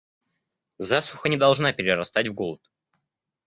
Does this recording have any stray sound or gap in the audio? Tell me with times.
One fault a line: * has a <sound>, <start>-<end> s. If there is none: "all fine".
all fine